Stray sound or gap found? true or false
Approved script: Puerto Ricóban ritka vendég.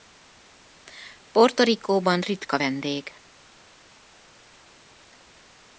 false